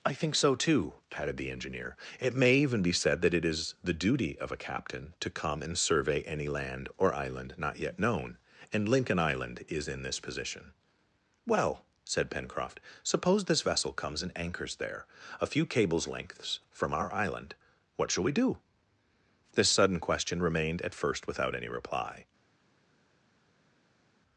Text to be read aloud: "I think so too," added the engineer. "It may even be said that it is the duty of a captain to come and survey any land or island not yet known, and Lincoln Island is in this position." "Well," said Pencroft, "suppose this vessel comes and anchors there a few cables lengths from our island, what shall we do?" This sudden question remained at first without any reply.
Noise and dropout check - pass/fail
pass